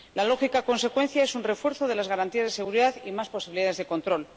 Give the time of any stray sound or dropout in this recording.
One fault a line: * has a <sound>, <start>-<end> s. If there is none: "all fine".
all fine